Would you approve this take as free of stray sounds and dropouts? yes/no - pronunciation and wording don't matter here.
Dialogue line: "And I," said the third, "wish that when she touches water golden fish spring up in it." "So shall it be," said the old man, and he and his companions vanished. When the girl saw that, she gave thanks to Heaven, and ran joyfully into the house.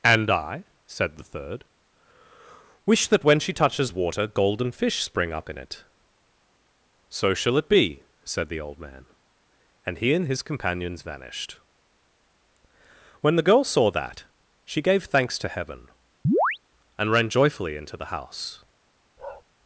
no